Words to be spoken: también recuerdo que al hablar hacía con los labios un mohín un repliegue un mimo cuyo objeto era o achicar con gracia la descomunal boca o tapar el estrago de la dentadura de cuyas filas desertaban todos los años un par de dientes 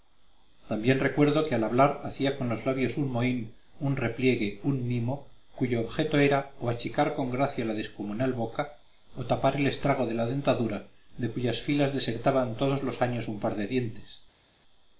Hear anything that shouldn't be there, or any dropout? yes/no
no